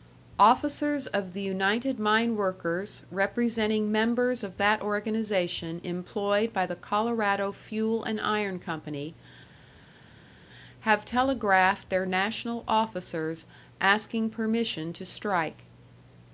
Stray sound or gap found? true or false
false